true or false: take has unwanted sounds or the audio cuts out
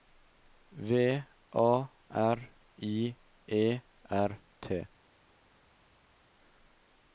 false